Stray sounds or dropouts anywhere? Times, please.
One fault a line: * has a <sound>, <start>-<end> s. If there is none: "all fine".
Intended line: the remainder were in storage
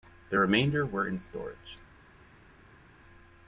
all fine